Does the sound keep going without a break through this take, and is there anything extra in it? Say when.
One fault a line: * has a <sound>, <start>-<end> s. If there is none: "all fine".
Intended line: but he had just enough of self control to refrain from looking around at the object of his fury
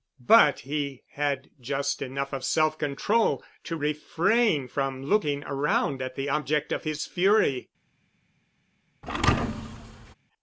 * has a thud, 9.0-10.1 s